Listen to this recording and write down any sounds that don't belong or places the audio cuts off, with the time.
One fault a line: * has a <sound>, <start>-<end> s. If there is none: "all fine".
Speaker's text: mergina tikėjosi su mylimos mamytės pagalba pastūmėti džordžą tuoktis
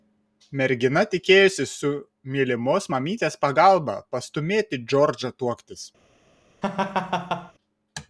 * has a laugh, 6.6-7.5 s